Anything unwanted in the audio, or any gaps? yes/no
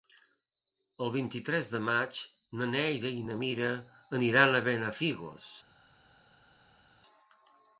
no